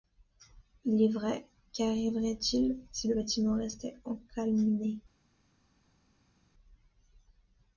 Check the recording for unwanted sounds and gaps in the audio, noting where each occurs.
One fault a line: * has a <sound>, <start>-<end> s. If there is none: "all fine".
all fine